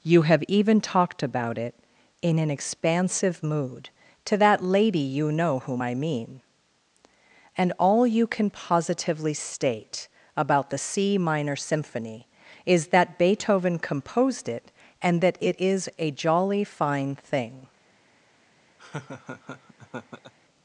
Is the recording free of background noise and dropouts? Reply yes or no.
no